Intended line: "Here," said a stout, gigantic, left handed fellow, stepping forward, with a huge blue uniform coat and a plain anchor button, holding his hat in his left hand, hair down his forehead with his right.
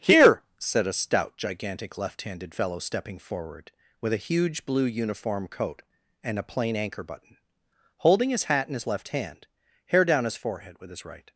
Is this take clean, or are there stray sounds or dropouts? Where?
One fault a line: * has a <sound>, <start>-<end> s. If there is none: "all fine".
all fine